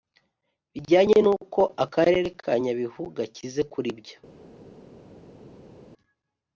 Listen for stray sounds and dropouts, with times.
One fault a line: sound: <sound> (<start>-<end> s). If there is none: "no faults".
no faults